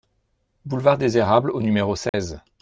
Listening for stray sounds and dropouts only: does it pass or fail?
fail